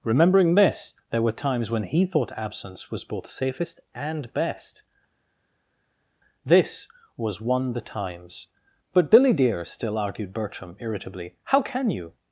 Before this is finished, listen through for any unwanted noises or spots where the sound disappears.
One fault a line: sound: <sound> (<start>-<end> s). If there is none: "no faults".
no faults